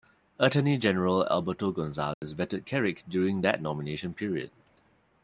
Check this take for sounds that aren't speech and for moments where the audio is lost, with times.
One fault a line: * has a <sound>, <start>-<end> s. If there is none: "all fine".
* has a dropout, 2.1-2.2 s